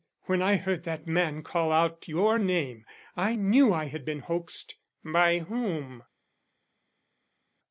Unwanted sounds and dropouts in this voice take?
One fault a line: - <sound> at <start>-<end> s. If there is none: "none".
none